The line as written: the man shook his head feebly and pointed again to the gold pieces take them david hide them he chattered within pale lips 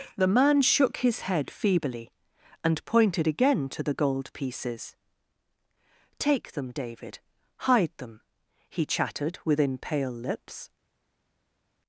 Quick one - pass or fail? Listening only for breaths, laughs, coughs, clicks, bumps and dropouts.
pass